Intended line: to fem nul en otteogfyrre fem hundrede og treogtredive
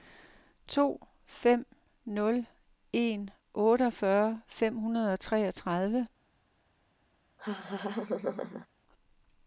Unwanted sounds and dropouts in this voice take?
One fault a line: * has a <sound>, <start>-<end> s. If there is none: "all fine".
* has a laugh, 7.4-8.7 s